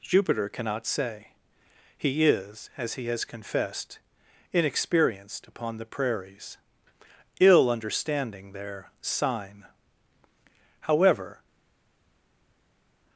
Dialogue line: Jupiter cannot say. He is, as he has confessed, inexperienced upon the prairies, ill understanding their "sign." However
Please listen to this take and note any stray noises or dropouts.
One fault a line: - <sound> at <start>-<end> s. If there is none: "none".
none